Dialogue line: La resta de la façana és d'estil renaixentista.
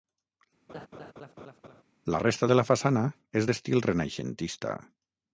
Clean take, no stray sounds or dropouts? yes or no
no